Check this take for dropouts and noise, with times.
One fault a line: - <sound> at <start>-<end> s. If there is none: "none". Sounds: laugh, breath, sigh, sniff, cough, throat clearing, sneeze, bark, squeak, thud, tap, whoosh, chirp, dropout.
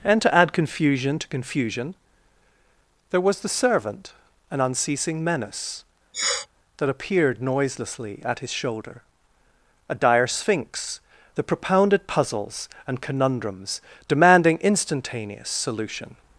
- sniff at 6.1-6.5 s